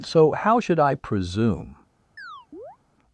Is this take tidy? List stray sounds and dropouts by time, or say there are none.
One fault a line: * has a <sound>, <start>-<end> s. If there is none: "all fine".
* has a chirp, 2.2-2.8 s